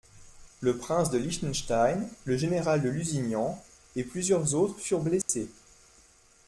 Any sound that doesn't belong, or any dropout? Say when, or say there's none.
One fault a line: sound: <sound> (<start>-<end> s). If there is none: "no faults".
sound: dropout (5.2-5.3 s)